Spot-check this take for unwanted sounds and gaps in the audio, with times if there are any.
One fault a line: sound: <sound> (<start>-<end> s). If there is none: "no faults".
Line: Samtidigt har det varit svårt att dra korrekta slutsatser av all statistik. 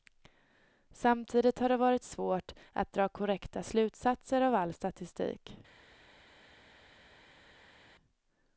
no faults